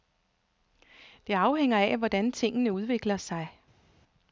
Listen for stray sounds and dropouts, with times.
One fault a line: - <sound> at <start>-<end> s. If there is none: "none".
none